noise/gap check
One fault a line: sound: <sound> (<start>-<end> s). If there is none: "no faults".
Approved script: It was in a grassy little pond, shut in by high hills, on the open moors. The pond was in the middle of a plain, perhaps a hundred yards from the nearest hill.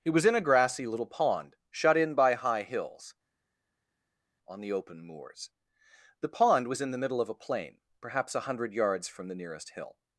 no faults